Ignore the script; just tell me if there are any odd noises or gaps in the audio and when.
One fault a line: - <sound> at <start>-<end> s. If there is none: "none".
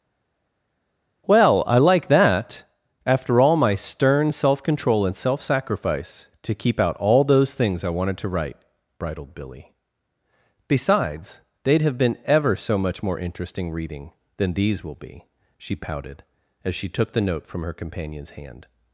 none